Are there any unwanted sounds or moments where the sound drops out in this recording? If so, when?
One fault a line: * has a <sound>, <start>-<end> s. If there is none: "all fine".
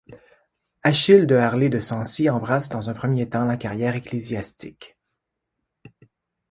all fine